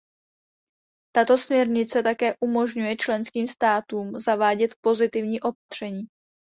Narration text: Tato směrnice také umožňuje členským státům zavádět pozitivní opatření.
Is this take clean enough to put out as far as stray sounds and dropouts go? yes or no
no